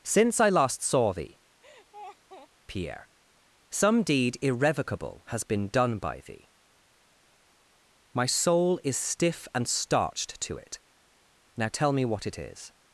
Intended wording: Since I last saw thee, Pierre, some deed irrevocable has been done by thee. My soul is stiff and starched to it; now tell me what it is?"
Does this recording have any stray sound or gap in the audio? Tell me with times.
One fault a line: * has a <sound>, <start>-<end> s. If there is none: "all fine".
* has a laugh, 1.6-2.5 s